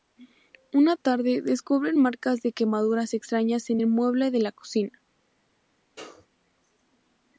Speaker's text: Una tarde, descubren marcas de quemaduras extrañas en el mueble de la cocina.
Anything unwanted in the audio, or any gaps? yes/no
yes